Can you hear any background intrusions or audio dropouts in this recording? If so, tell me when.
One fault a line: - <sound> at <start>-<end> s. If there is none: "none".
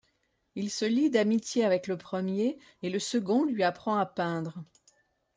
none